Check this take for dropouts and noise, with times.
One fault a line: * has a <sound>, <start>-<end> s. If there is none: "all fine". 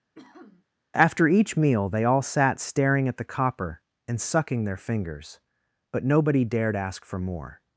* has a sniff, 0.1-0.7 s